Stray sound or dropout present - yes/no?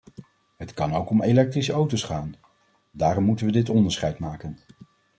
no